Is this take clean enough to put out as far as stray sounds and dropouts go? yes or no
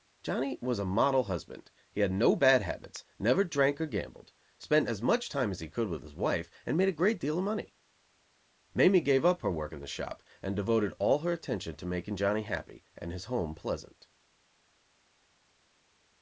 yes